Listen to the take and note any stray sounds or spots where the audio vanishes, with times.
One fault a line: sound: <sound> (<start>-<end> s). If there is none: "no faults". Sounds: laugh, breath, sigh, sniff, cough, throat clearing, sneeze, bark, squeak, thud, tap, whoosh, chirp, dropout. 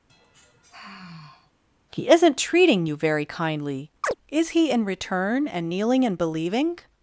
sound: sigh (0.1-1.5 s)
sound: chirp (4.0-4.1 s)